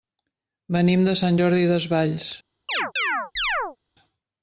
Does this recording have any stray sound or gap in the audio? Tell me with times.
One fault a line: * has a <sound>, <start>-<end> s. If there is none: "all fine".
* has a chirp, 2.7-3.8 s